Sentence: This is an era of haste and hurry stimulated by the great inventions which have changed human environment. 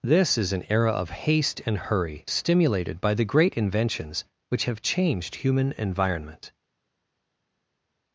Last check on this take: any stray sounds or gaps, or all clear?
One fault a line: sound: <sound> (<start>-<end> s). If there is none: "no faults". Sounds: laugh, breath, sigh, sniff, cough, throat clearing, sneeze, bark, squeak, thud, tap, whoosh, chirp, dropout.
no faults